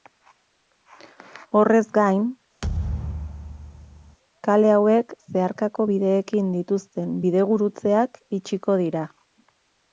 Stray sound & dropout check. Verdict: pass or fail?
fail